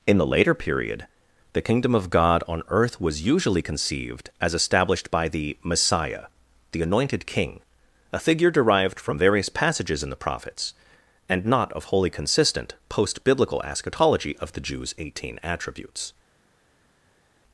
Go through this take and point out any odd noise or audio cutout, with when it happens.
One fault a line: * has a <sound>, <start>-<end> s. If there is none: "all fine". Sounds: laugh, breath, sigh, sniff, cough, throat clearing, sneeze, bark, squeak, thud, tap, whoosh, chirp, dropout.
all fine